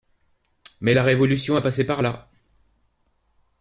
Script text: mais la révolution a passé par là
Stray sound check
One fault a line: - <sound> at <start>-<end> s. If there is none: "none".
none